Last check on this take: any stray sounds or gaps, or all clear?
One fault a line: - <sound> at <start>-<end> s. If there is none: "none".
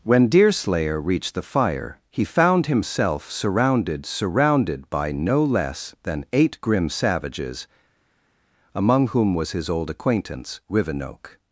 none